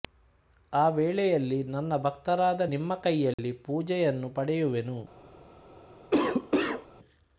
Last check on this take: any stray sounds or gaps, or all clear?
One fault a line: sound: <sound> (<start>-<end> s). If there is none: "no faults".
sound: dropout (3.3-3.4 s)
sound: cough (6.1-6.9 s)